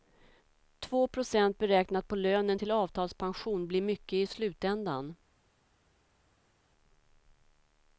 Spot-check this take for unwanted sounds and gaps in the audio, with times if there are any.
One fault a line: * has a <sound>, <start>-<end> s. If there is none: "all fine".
all fine